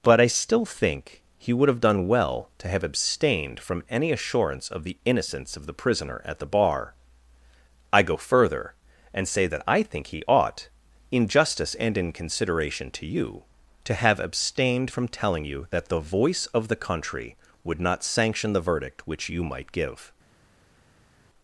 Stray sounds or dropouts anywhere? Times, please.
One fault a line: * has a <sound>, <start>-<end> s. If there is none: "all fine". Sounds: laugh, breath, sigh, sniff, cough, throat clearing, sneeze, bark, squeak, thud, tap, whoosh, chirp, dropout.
all fine